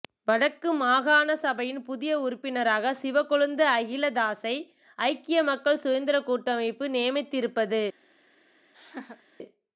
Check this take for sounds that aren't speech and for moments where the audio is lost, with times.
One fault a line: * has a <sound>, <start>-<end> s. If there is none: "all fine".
* has a laugh, 8.7-9.2 s